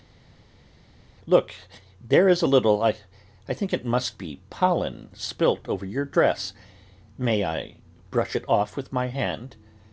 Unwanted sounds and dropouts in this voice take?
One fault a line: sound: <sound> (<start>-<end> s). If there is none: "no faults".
no faults